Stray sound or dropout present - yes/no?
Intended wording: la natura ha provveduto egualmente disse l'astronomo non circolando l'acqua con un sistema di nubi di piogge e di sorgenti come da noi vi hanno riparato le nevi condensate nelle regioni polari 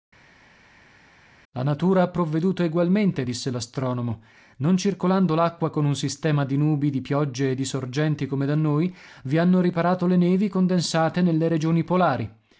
no